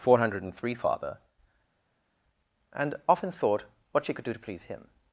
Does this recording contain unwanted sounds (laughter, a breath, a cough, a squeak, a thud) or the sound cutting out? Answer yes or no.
no